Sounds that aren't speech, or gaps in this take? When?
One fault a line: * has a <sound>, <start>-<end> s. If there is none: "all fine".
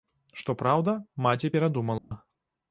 * has a dropout, 2.0-2.1 s